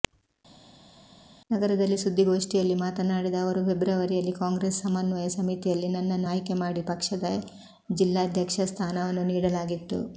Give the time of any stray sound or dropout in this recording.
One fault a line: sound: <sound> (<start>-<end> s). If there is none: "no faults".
no faults